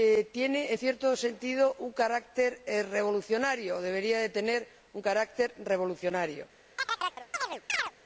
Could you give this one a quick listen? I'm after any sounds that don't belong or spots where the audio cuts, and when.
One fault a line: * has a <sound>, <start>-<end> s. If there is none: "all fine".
* has a chirp, 6.8-7.9 s